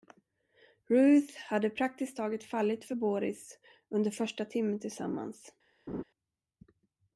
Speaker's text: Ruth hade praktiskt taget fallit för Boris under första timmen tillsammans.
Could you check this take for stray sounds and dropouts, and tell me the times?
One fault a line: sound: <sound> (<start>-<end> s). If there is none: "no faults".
sound: laugh (5.9-6.0 s)